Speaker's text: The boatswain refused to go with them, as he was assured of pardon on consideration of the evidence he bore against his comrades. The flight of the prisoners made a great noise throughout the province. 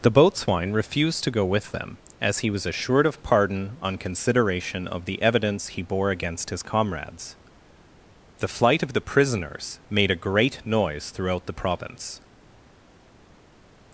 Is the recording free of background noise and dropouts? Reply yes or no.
yes